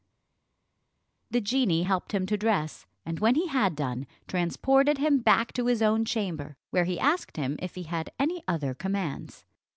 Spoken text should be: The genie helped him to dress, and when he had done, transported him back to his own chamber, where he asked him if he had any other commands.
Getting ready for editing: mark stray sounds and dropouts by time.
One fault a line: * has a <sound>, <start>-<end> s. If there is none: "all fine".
all fine